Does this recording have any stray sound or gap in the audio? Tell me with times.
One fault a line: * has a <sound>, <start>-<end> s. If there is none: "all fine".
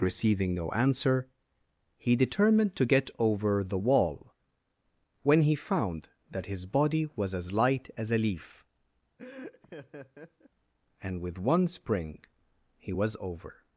* has a laugh, 9.2-10.5 s